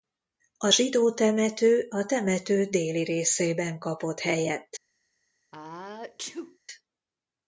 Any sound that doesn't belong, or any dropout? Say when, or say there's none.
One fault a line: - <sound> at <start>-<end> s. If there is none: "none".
- sneeze at 5.5-6.6 s